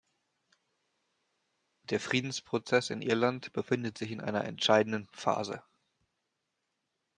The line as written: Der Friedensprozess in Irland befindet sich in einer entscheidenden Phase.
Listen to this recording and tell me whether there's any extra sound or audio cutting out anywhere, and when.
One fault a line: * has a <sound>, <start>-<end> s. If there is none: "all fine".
all fine